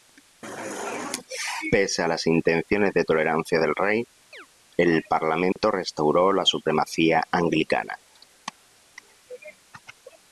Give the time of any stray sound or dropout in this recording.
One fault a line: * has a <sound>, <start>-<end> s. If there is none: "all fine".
* has a chirp, 4.3-4.5 s
* has a dropout, 5.5-5.6 s